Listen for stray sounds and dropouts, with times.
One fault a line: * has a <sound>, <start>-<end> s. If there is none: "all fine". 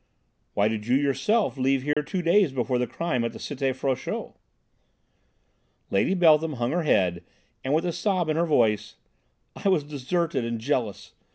* has a dropout, 1.9-2.0 s